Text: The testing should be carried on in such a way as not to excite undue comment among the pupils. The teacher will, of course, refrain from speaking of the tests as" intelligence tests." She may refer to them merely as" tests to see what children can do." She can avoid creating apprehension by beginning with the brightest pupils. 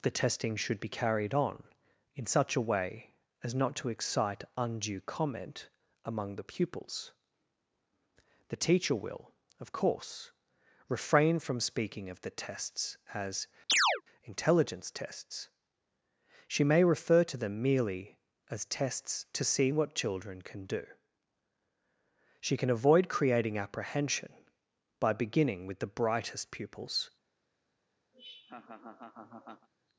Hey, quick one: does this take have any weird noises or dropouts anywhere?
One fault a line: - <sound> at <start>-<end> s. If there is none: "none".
- chirp at 13.7-14.0 s
- laugh at 28.1-29.7 s